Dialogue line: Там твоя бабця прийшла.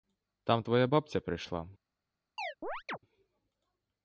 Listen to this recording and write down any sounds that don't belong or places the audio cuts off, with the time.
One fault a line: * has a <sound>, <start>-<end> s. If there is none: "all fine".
* has a chirp, 2.4-3.0 s